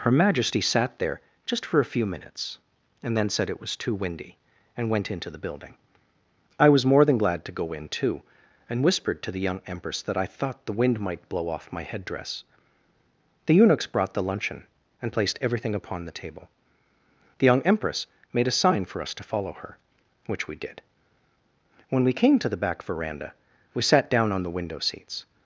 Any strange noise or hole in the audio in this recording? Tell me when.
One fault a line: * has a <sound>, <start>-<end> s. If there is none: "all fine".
all fine